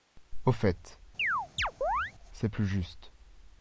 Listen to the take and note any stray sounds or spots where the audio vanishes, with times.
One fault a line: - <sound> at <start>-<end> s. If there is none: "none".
- chirp at 1.2-2.1 s